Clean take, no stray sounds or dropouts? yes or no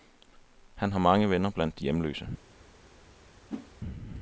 no